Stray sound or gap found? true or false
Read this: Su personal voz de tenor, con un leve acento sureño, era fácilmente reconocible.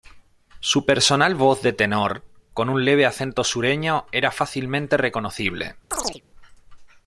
true